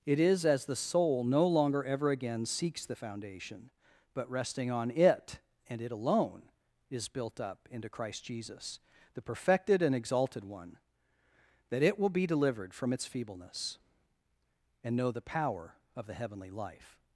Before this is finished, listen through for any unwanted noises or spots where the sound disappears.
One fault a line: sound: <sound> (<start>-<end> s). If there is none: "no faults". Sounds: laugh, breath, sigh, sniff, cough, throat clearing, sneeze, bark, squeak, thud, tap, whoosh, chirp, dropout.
no faults